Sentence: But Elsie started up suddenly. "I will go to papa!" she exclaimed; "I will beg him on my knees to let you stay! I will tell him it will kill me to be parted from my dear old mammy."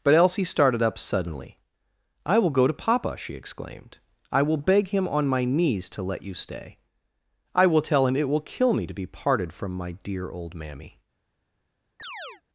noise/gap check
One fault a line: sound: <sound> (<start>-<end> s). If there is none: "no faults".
sound: chirp (12.0-12.4 s)